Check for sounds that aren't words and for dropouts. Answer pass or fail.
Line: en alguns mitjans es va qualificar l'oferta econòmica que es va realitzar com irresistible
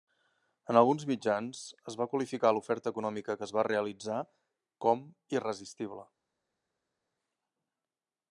pass